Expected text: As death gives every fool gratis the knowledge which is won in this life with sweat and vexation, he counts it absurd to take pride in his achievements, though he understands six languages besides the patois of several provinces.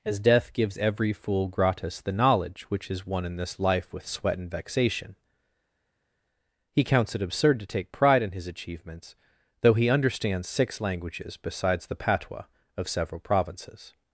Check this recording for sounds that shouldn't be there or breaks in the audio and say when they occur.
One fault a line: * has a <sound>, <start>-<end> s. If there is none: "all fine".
all fine